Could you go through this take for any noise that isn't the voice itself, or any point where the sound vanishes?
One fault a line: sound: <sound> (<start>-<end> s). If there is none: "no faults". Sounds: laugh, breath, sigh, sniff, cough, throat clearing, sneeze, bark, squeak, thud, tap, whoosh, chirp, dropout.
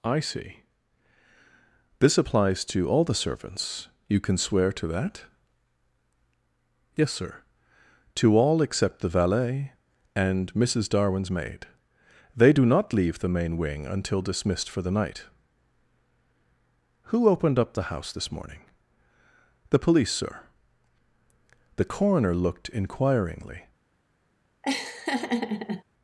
sound: laugh (24.6-25.8 s)